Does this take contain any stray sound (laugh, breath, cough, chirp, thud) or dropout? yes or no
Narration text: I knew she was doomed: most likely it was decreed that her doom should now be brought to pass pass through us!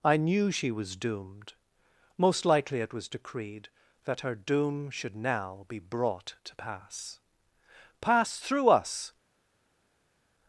no